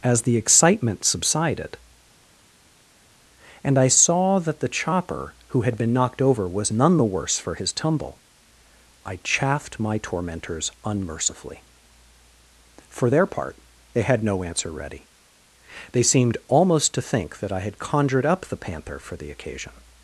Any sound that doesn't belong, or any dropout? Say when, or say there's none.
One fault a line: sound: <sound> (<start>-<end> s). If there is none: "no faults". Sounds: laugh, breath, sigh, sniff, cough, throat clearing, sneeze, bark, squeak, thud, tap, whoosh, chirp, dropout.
no faults